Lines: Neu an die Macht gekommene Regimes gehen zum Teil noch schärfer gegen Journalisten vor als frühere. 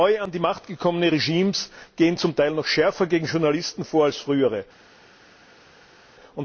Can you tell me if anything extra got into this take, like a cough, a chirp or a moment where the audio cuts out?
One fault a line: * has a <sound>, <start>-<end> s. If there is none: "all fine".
all fine